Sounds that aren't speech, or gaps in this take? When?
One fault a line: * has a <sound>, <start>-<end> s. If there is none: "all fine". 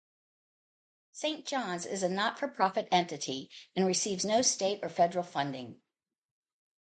all fine